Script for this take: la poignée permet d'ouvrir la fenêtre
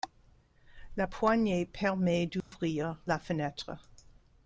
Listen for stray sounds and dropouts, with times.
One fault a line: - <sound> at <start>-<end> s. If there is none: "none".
- dropout at 2.4-2.5 s